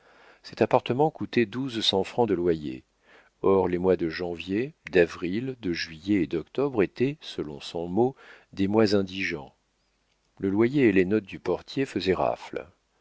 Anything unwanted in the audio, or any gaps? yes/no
no